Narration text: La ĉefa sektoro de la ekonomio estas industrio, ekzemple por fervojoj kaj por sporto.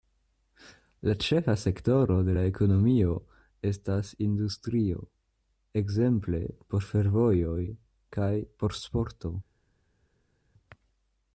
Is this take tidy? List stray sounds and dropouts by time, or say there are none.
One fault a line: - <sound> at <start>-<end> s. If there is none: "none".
none